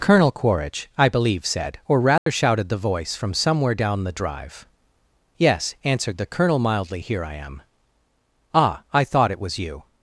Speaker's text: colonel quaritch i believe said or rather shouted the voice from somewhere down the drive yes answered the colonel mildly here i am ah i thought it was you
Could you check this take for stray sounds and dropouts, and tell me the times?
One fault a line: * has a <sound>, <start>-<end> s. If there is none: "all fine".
* has a dropout, 2.2-2.3 s